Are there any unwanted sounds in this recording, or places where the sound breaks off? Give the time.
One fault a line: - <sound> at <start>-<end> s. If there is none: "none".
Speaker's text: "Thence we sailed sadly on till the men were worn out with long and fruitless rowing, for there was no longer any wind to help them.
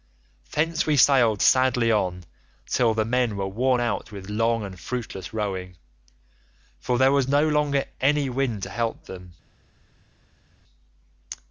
none